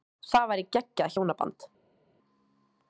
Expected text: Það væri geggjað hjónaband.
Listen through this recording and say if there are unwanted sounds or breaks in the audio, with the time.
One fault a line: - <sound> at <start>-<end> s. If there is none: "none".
none